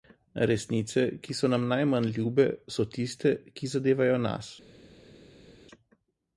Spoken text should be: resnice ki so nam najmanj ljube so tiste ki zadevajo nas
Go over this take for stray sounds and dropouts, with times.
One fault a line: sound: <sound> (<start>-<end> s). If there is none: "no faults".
no faults